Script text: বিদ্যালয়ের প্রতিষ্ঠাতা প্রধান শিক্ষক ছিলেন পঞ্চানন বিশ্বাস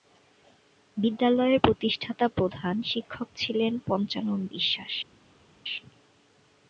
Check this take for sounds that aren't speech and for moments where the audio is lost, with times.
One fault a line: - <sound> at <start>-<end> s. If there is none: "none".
none